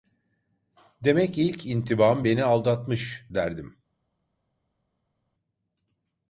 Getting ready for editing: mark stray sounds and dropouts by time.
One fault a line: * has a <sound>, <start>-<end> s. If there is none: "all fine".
all fine